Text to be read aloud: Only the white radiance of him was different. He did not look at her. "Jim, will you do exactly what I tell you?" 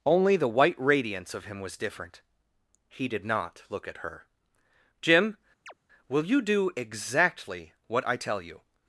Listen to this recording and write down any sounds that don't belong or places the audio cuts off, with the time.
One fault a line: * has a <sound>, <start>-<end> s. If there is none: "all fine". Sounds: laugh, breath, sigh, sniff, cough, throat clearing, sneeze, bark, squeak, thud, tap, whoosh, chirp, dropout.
* has a chirp, 5.7-5.7 s